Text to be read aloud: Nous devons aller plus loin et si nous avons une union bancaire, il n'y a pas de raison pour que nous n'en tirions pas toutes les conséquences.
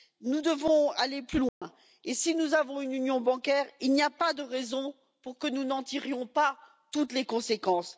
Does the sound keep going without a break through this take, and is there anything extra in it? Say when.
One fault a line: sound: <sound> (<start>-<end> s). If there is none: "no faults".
sound: dropout (1.5-1.6 s)